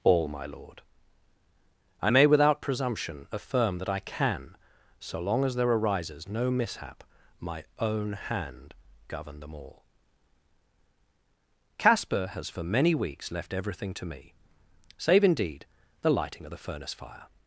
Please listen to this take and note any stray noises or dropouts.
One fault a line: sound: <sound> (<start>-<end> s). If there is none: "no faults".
no faults